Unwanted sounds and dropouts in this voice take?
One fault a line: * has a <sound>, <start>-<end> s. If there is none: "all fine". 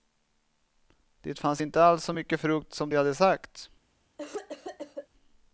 * has a cough, 4.2-5.1 s